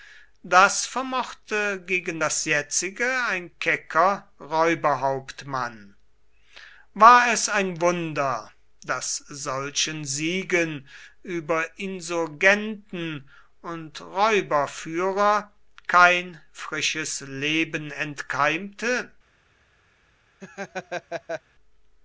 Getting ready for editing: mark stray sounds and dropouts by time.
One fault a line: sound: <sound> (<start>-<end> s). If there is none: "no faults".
sound: laugh (20.4-21.4 s)